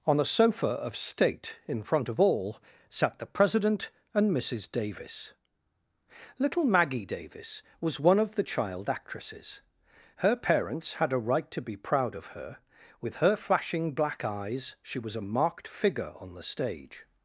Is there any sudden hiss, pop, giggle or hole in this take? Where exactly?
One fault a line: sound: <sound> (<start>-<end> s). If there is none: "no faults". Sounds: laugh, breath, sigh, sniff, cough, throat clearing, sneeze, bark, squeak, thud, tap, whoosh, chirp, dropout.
no faults